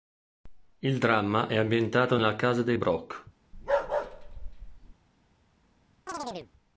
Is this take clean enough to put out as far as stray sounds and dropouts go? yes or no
no